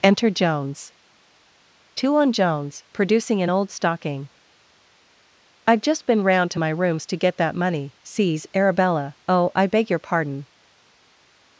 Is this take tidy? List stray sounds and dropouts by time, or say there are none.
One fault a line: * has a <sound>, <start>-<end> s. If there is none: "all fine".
all fine